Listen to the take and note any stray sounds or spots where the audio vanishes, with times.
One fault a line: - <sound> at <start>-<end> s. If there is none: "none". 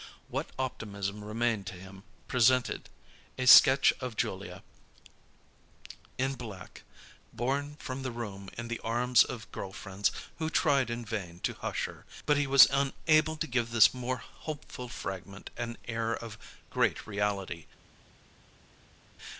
none